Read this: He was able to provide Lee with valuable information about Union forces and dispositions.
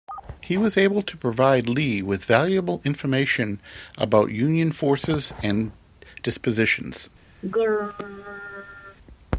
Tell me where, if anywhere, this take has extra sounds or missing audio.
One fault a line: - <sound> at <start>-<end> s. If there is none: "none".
- throat clearing at 7.4-9.0 s